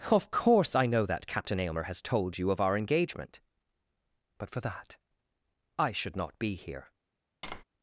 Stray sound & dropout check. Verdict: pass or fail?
fail